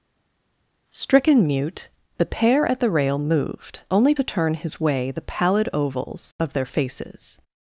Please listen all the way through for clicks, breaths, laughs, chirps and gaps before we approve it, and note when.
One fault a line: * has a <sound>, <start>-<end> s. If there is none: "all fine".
all fine